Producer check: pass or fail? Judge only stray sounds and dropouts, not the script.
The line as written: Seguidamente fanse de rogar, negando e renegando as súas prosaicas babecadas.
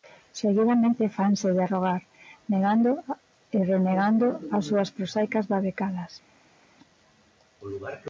pass